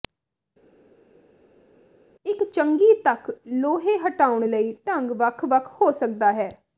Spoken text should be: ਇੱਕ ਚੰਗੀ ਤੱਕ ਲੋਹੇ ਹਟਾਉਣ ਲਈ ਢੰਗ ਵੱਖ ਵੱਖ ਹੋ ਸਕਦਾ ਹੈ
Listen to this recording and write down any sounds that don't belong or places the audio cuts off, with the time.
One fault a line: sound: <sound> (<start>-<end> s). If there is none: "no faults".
no faults